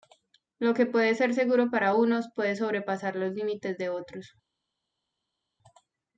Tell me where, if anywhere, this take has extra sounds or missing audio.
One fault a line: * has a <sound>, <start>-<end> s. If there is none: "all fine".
all fine